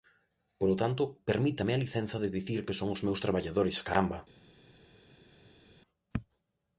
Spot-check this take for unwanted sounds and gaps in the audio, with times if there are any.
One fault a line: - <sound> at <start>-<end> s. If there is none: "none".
none